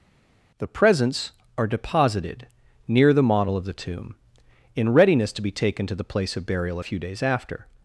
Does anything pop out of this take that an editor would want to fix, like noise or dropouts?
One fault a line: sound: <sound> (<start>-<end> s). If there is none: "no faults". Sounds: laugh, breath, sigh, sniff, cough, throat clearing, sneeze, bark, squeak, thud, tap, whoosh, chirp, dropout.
no faults